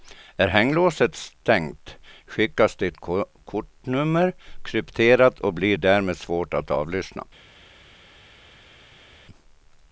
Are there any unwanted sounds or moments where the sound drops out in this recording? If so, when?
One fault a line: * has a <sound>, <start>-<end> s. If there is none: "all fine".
all fine